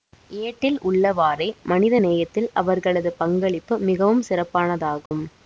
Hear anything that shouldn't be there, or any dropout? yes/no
yes